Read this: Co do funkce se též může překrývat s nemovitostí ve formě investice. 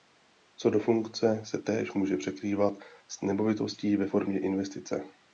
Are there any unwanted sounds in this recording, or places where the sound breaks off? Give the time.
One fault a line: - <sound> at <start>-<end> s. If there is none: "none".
none